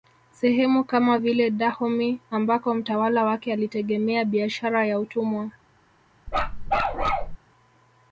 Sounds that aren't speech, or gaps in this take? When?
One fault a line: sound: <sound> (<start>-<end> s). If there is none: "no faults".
sound: bark (6.3-7.4 s)